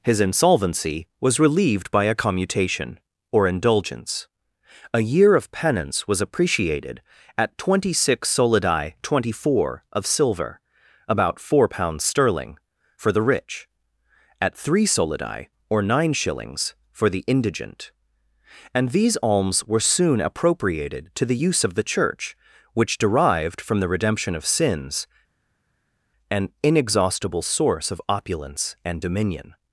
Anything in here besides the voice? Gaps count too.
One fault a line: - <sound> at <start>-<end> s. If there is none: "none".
none